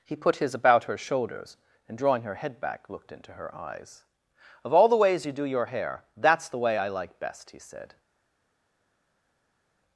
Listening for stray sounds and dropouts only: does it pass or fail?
pass